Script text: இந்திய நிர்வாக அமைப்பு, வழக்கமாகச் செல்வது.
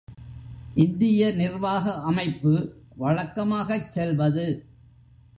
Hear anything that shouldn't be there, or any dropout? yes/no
no